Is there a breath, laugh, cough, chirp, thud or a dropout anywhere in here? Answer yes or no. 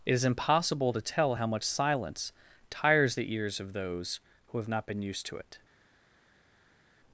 no